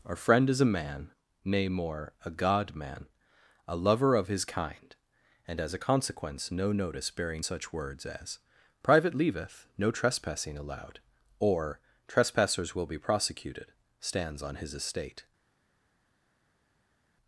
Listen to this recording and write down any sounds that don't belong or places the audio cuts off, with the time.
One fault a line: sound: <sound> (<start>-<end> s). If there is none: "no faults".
no faults